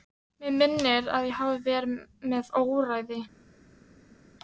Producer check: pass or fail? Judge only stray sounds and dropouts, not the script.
pass